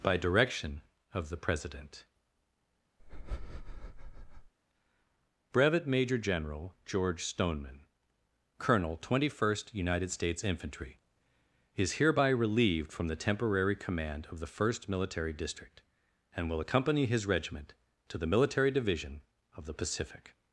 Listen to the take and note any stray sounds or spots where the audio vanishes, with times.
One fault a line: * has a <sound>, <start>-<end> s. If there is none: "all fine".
* has a breath, 3.0-4.5 s